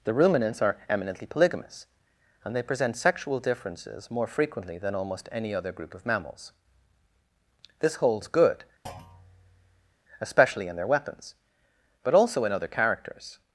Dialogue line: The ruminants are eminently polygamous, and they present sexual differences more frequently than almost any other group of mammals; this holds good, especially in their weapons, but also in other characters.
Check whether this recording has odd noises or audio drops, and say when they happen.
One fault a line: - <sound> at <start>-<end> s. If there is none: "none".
- thud at 8.9-10.0 s